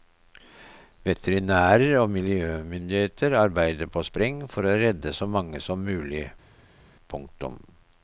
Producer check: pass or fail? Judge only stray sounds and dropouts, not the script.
pass